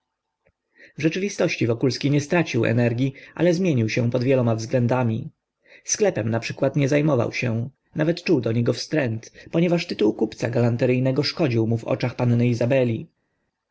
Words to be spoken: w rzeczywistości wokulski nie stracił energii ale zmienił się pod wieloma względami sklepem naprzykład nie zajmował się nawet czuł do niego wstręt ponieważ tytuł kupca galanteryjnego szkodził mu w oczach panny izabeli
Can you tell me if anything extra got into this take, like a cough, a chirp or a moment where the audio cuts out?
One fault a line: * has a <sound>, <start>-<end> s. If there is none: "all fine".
all fine